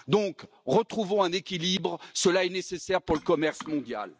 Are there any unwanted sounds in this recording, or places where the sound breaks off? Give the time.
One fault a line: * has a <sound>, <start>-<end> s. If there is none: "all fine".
all fine